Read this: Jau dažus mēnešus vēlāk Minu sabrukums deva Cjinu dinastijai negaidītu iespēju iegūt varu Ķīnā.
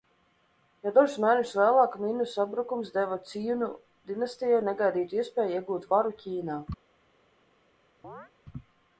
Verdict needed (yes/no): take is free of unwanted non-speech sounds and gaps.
no